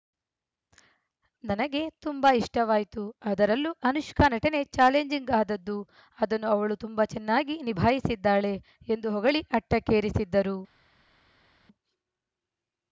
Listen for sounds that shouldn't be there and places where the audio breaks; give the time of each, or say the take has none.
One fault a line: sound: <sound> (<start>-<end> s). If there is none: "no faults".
no faults